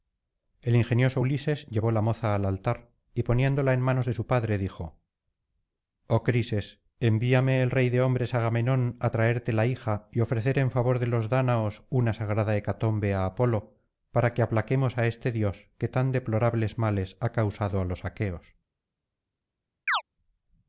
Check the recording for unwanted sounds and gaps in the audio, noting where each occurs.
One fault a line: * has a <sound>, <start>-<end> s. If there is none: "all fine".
* has a chirp, 19.9-20.0 s